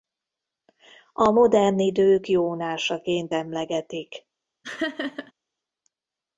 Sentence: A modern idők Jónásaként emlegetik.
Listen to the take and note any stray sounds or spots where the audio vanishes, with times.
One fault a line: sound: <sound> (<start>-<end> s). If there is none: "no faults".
sound: laugh (4.6-5.3 s)